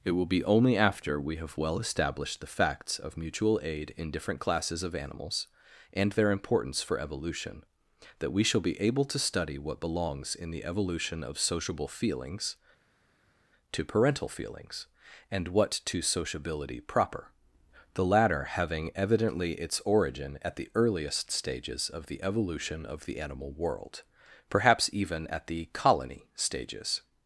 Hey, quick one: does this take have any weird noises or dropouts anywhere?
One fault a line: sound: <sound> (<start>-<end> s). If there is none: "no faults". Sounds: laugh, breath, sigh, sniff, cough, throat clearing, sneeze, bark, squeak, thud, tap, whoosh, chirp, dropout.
no faults